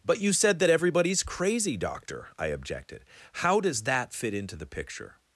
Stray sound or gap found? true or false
false